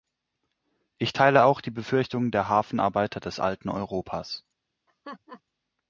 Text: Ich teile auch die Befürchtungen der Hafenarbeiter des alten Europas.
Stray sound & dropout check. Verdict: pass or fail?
fail